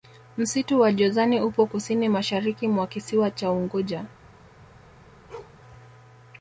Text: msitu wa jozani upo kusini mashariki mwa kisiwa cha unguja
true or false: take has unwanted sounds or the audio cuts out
true